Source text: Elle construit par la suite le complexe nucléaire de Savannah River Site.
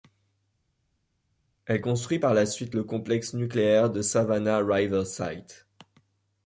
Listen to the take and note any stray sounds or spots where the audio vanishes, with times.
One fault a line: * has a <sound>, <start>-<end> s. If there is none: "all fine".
all fine